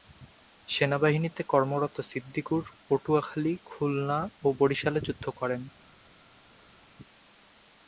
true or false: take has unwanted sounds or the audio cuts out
false